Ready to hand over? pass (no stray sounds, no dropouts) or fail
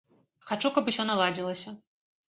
pass